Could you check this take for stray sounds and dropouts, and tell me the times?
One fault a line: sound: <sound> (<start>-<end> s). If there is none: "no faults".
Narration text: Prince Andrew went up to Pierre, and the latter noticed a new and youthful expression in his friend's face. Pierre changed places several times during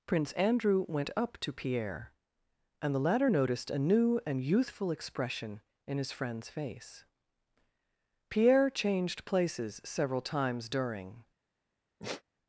sound: sigh (12.0-12.2 s)